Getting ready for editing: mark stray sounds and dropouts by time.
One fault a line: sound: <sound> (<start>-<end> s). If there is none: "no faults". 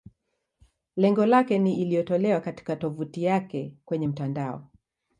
no faults